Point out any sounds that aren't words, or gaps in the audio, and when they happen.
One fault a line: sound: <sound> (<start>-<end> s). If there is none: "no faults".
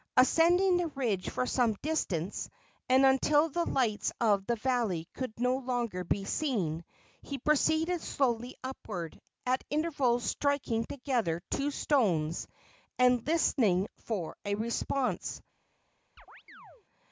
sound: chirp (16.2-16.8 s)